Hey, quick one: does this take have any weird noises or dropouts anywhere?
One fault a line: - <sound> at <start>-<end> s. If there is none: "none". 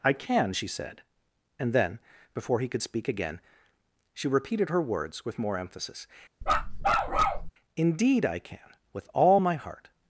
- bark at 6.4-7.5 s